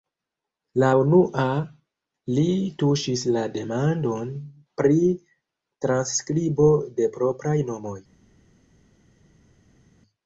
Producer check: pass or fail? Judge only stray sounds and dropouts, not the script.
pass